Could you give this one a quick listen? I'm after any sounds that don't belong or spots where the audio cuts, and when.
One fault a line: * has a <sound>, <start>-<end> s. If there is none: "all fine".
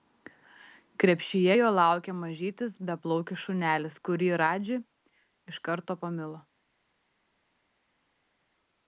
all fine